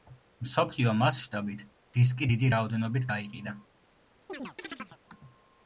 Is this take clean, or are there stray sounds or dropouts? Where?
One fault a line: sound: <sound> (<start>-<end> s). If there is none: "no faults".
sound: chirp (4.3-5.0 s)